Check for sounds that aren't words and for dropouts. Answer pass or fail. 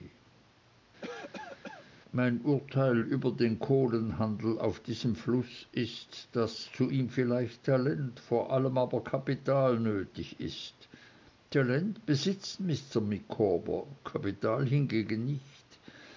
fail